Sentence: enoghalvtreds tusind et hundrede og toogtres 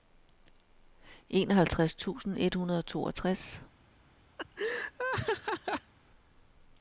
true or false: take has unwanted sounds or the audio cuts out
true